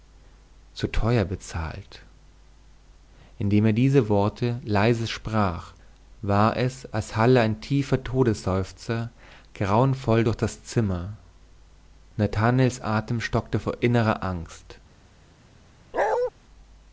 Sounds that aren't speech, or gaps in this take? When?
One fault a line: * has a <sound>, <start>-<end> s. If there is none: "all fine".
* has a bark, 15.9-16.3 s